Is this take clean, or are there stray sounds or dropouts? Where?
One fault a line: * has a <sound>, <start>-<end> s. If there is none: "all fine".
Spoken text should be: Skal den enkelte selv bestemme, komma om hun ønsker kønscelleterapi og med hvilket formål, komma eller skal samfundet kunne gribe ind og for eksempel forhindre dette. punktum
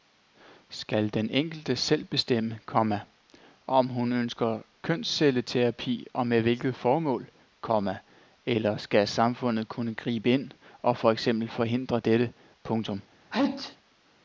* has a sneeze, 13.3-13.8 s